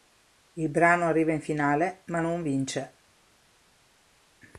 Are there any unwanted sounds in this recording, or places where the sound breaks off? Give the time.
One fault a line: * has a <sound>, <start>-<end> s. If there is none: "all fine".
all fine